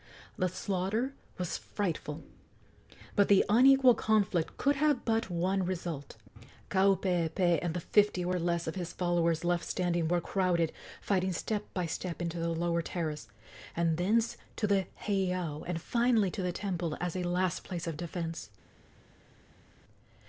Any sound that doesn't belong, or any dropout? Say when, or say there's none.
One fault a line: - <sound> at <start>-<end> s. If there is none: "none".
none